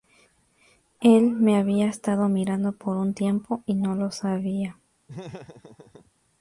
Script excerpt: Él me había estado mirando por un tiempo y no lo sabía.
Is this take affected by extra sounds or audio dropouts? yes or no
yes